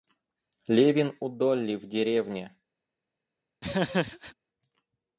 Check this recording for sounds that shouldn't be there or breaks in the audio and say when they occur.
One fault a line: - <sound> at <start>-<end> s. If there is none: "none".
- laugh at 3.6-4.3 s